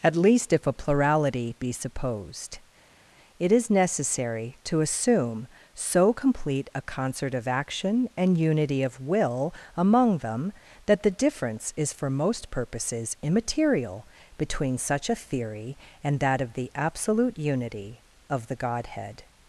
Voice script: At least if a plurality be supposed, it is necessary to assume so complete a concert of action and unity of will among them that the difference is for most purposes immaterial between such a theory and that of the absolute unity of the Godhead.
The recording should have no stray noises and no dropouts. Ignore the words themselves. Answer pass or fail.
pass